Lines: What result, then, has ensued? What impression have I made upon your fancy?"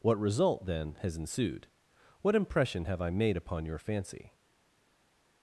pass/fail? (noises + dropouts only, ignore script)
pass